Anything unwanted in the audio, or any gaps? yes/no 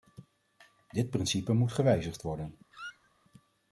yes